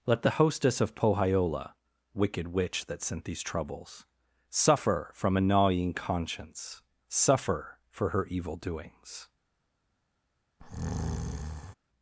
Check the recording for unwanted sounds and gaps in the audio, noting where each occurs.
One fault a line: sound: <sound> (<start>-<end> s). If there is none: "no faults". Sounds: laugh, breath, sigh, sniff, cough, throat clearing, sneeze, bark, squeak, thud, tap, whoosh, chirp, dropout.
sound: breath (10.6-11.7 s)